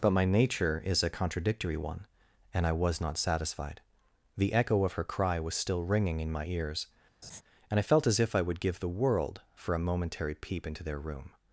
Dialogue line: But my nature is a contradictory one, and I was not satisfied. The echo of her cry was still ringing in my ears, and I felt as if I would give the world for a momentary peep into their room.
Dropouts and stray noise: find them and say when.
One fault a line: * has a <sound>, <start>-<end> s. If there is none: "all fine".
* has a laugh, 7.2-7.4 s